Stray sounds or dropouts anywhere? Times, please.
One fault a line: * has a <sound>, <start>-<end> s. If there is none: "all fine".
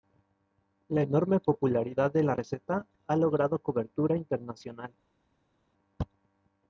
all fine